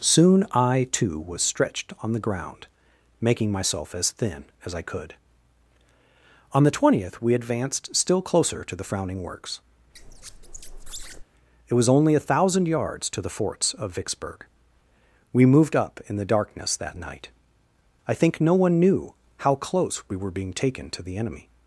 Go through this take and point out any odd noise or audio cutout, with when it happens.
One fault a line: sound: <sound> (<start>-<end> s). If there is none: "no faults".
sound: squeak (9.9-11.2 s)